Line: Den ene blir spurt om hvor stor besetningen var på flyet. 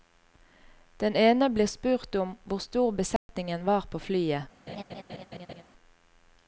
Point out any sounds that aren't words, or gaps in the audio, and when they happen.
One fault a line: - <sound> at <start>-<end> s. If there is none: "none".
- dropout at 3.2-3.3 s
- laugh at 4.7-5.6 s